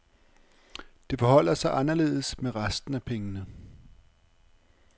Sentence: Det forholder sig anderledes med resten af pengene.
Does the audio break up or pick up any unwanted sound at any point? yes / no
no